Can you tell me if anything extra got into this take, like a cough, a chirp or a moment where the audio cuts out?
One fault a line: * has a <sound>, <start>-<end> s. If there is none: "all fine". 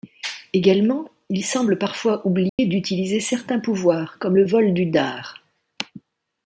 * has a dropout, 2.5-2.6 s